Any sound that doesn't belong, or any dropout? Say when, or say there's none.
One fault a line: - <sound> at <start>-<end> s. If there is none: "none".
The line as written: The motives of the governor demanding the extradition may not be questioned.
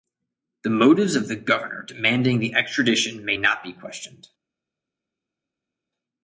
none